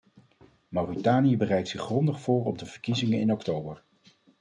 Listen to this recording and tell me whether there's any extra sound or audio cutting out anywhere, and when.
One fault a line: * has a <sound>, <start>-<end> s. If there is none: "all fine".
all fine